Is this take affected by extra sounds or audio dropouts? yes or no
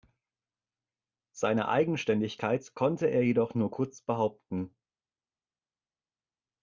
no